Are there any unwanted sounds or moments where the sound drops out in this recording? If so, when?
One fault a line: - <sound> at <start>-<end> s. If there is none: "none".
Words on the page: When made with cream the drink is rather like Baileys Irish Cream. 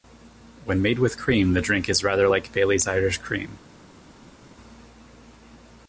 none